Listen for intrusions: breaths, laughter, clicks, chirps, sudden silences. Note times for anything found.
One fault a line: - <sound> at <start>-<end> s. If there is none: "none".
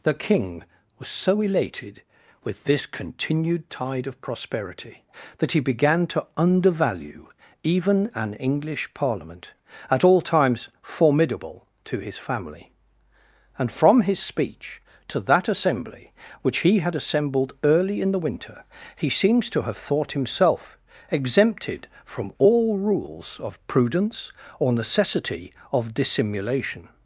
none